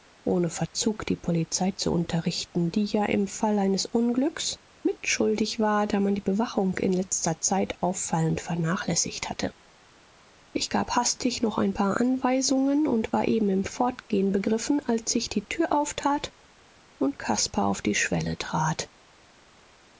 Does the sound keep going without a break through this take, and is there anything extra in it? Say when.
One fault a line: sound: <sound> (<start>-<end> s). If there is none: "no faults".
no faults